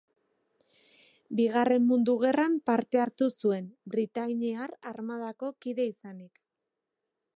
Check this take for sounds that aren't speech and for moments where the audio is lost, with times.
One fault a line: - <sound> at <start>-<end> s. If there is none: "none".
none